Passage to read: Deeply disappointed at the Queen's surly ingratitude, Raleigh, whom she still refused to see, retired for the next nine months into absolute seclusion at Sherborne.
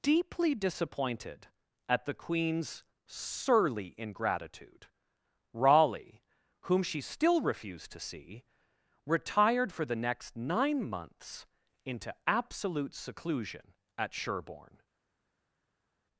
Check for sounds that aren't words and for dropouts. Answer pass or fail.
pass